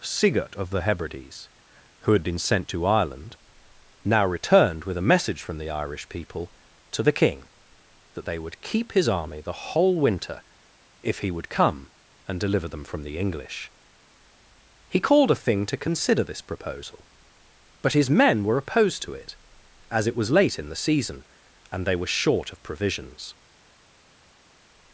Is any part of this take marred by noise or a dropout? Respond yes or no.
no